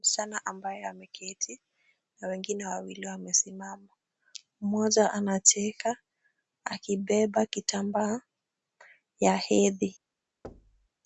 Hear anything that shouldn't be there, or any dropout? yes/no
yes